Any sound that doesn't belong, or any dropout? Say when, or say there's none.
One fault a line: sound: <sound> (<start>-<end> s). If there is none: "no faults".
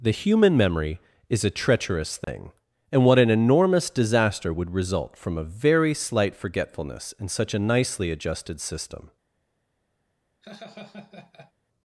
sound: dropout (2.2-2.3 s)
sound: laugh (10.4-11.5 s)